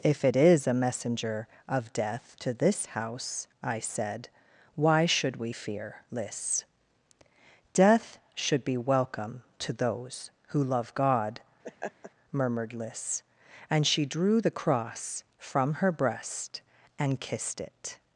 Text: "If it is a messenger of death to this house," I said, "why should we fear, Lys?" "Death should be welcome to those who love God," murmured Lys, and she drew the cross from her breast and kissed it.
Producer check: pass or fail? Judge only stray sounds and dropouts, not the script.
fail